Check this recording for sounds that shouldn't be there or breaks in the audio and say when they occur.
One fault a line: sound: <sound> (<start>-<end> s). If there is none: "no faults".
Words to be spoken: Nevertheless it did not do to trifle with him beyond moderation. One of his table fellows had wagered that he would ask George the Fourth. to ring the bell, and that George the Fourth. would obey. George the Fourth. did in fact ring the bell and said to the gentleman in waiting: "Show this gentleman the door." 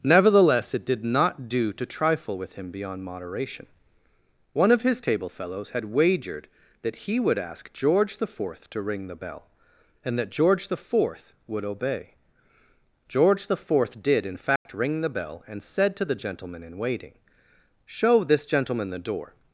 sound: dropout (14.6-14.7 s)